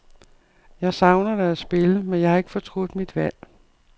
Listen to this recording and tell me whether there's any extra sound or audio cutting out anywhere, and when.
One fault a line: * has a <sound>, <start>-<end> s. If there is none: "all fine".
all fine